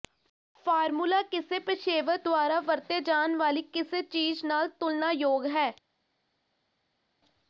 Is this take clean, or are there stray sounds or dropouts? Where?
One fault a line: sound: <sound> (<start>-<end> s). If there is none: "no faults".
no faults